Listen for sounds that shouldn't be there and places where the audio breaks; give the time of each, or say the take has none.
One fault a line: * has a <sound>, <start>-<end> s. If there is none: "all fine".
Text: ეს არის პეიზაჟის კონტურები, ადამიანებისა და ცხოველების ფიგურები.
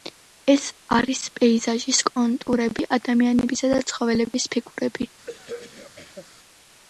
* has a throat clearing, 5.3-6.3 s